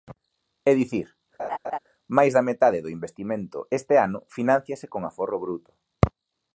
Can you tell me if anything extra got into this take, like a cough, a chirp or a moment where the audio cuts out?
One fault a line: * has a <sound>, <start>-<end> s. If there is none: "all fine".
* has a laugh, 1.4-1.8 s